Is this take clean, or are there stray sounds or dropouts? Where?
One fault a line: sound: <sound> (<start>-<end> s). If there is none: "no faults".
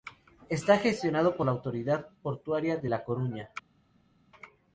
no faults